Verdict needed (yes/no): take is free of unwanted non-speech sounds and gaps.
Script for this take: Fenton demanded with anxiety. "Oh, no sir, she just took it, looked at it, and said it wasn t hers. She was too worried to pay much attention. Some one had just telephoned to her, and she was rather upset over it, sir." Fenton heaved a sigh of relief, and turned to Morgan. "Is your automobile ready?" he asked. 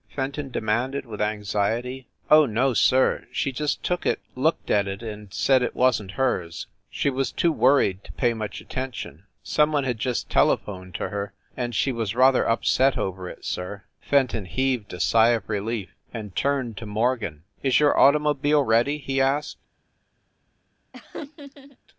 no